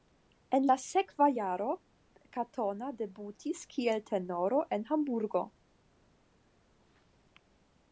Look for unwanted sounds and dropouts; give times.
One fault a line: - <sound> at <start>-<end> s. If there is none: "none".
none